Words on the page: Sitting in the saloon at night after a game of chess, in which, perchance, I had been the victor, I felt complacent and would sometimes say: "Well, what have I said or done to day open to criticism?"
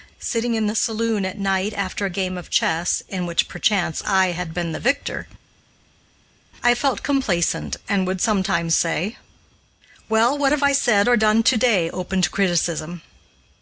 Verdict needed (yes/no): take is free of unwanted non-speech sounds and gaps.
yes